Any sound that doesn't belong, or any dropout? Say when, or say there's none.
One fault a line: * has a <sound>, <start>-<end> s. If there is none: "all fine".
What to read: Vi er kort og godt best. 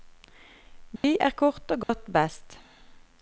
* has a dropout, 1.0-1.0 s
* has a dropout, 1.8-1.9 s